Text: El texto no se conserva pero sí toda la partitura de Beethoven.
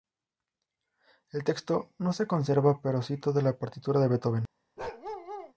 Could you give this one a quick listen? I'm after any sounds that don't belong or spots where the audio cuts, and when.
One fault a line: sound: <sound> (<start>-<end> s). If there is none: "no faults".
sound: bark (4.8-5.5 s)